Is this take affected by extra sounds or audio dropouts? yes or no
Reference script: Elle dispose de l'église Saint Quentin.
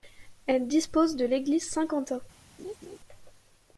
yes